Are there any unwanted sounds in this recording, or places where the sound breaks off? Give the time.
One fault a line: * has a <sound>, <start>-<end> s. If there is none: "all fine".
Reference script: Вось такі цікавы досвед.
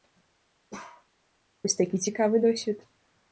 * has a bark, 0.7-1.1 s